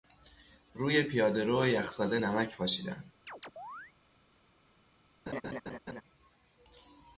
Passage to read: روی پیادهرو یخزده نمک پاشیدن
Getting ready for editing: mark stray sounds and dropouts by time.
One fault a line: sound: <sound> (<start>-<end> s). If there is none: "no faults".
sound: chirp (3.3-3.9 s)
sound: laugh (5.3-6.0 s)